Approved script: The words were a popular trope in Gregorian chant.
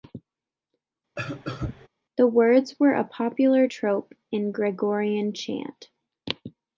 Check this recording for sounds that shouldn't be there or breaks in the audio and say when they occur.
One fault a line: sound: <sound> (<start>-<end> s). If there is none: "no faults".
sound: cough (1.2-1.9 s)